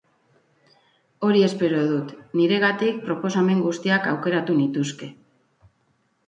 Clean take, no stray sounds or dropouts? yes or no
yes